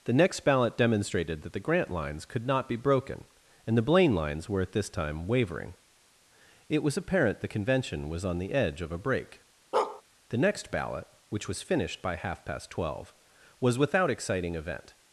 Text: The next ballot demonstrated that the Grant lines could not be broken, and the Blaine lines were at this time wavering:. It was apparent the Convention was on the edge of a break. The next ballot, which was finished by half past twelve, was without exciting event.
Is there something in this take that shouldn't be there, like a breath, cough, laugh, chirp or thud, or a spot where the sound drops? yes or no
yes